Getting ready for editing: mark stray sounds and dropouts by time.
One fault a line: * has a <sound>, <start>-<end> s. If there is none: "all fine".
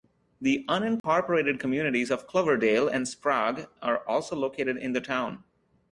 * has a dropout, 1.0-1.0 s